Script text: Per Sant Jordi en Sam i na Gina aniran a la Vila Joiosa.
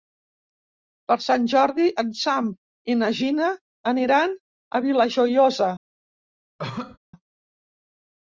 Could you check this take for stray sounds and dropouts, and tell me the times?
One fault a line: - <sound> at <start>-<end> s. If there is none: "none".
- cough at 6.6-7.0 s